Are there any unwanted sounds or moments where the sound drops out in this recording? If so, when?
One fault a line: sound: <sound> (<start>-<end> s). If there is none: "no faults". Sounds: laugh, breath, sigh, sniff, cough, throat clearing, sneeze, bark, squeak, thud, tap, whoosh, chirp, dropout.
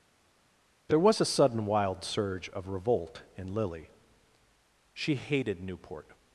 no faults